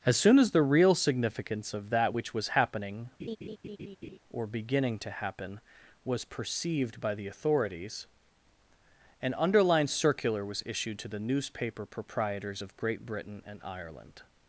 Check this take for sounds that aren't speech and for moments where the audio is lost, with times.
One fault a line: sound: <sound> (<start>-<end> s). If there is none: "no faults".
sound: laugh (3.2-4.2 s)